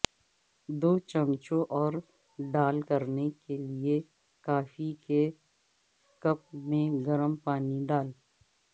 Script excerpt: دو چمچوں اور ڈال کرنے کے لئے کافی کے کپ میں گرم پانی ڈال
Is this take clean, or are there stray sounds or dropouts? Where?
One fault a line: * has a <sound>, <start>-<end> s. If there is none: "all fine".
all fine